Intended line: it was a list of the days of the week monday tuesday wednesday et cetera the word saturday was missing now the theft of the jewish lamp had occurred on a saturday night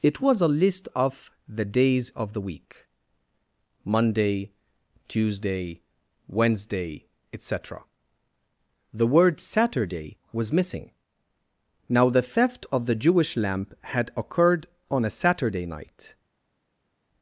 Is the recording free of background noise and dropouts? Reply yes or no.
yes